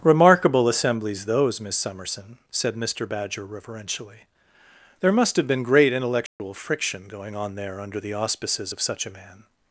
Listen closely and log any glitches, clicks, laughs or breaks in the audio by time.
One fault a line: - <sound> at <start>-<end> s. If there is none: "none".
- dropout at 6.3-6.4 s